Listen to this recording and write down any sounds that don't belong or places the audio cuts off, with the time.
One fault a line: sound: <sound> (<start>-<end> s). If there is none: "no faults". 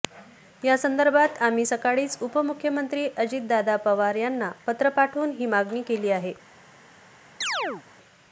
sound: chirp (7.4-7.8 s)